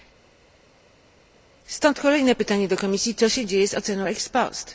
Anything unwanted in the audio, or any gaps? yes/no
no